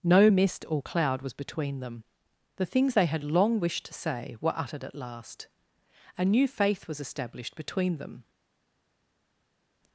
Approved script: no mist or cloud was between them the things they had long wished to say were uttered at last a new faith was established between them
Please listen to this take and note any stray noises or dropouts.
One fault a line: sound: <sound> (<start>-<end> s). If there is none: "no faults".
no faults